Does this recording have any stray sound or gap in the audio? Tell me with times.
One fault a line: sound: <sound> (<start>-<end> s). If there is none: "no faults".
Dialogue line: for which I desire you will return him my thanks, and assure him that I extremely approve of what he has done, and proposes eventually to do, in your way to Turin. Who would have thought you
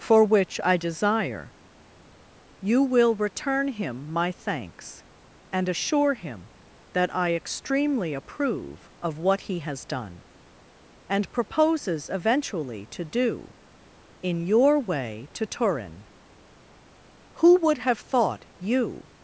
no faults